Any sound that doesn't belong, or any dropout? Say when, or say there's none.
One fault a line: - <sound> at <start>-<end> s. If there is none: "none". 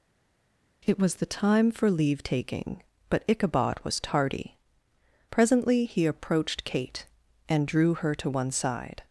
none